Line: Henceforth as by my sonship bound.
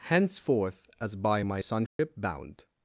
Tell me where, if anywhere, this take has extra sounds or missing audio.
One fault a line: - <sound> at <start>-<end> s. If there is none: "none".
- dropout at 1.9-2.0 s